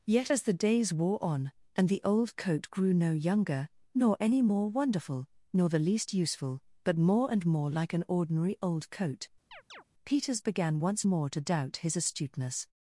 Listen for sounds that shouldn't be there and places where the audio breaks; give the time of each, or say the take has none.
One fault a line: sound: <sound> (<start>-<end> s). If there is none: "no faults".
sound: chirp (9.5-9.8 s)